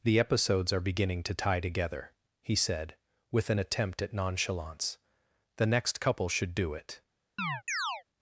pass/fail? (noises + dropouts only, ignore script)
fail